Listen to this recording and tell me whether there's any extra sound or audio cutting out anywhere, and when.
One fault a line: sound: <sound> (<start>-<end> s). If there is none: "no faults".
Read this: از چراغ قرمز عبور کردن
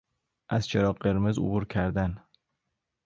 no faults